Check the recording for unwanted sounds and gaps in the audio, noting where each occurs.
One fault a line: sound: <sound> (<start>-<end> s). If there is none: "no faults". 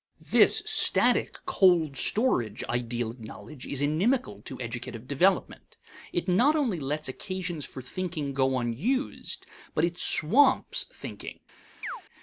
sound: chirp (11.8-12.0 s)